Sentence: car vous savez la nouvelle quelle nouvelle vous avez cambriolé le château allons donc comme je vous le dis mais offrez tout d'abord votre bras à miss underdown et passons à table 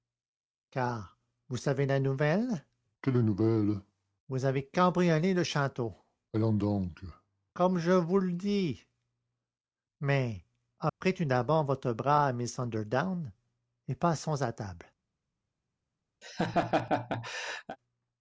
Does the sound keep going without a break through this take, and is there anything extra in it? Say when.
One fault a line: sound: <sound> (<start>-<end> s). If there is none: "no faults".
sound: dropout (10.9-11.0 s)
sound: laugh (16.2-17.8 s)